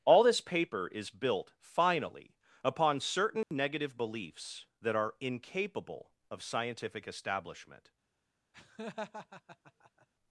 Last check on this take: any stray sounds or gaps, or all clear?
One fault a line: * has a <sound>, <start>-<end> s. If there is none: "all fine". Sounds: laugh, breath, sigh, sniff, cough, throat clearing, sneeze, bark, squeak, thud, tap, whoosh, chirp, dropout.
* has a dropout, 3.4-3.5 s
* has a laugh, 8.5-10.1 s